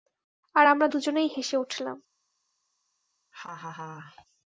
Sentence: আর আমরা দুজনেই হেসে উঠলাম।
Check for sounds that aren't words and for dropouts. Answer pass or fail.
fail